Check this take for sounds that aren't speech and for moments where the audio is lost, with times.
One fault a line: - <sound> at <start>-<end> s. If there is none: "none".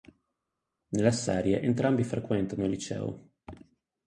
none